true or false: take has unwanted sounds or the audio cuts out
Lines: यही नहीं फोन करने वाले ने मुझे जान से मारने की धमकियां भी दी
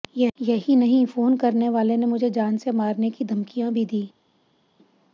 false